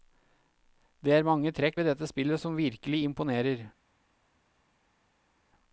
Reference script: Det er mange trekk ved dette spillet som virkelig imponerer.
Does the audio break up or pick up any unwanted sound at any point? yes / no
no